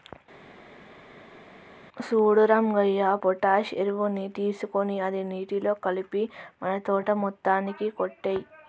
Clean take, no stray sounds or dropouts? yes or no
yes